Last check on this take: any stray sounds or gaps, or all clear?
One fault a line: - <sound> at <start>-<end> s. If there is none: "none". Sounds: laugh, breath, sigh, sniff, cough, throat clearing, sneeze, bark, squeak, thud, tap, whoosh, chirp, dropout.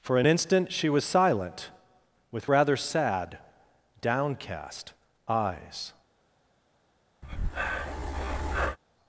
- breath at 7.2-8.8 s